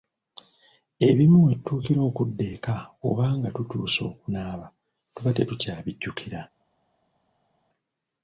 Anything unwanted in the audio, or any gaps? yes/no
no